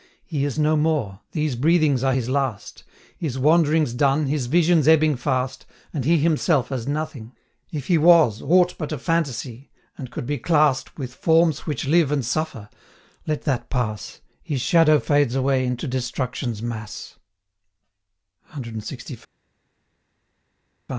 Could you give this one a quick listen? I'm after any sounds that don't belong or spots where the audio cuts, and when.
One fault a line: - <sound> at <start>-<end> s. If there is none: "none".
none